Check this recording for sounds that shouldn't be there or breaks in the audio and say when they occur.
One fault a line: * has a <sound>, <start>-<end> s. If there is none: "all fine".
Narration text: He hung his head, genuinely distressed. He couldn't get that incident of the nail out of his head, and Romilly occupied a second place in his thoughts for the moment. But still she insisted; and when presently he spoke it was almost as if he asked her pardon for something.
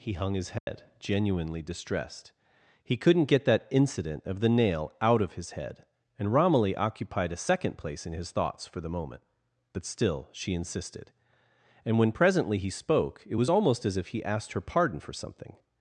* has a dropout, 0.6-0.7 s